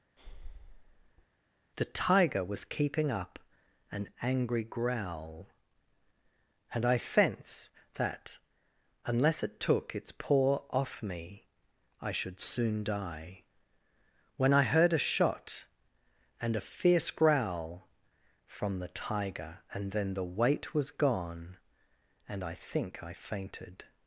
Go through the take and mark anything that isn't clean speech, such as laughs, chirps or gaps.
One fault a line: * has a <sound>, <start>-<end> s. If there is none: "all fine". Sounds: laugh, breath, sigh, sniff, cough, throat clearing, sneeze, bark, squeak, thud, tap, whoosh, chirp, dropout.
* has a breath, 0.2-1.3 s